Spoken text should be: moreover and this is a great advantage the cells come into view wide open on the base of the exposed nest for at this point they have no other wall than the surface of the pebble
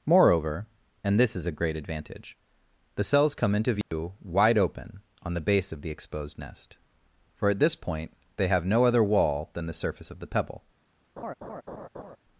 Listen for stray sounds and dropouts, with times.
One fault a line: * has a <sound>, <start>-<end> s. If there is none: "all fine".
* has a dropout, 3.8-3.9 s
* has a laugh, 11.2-12.2 s